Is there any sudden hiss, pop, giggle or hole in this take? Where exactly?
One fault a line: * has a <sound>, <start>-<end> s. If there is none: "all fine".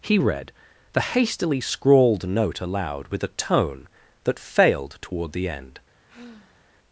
* has a sigh, 6.1-6.8 s